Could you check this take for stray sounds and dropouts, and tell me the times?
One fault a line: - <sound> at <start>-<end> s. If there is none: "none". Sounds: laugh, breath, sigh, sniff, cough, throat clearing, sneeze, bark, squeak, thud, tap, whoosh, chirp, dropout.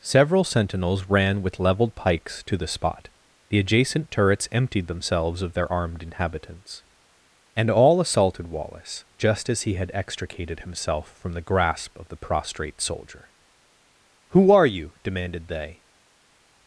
none